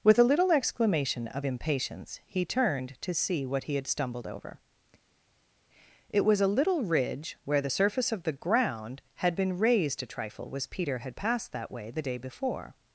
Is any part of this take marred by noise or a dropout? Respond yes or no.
no